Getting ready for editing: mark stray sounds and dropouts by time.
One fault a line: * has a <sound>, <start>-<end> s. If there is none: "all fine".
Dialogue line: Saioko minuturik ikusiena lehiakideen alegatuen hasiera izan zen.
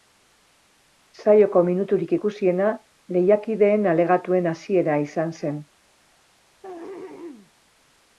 * has a throat clearing, 6.6-7.5 s